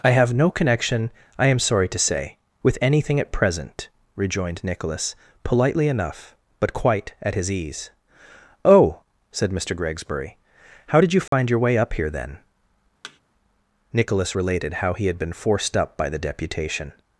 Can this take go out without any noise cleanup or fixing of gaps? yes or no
no